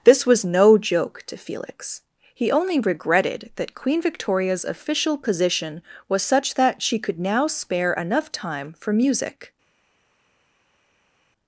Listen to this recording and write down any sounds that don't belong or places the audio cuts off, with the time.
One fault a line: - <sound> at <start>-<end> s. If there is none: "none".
none